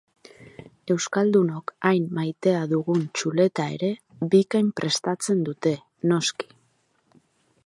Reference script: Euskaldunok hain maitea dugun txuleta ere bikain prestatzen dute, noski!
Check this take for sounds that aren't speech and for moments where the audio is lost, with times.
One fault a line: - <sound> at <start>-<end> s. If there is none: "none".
none